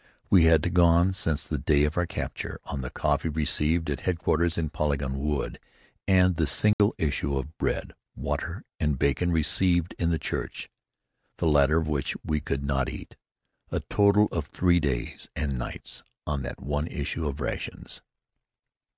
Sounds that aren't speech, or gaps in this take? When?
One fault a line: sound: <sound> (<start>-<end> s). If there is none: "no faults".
sound: dropout (6.7-6.8 s)